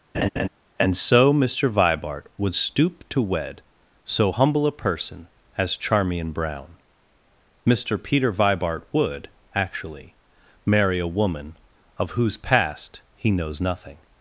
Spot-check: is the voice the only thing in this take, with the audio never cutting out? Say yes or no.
no